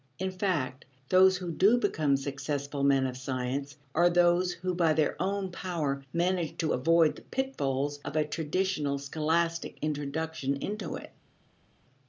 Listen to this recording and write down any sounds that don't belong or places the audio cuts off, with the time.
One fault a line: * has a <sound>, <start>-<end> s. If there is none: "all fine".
all fine